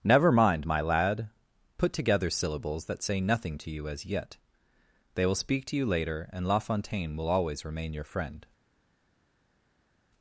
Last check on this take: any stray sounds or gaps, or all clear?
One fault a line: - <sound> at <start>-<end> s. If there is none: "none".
none